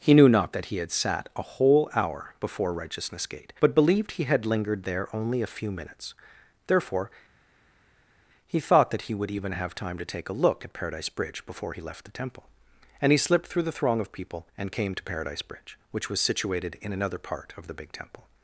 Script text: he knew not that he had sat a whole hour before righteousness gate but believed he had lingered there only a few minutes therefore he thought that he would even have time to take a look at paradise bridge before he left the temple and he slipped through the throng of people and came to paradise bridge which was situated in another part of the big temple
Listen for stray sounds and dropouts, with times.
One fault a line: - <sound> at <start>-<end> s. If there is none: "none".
none